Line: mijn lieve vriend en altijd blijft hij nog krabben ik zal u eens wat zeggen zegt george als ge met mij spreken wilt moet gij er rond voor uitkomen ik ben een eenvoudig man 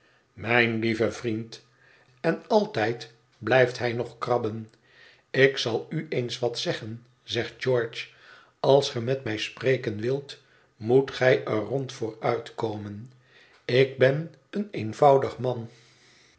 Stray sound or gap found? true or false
false